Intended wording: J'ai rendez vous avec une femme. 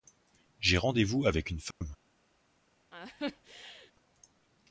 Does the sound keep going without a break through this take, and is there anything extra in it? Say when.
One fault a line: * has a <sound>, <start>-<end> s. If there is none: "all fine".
* has a dropout, 1.7-1.8 s
* has a laugh, 2.9-3.9 s